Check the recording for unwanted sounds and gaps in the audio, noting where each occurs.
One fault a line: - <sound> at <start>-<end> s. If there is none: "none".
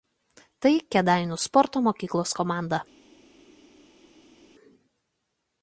none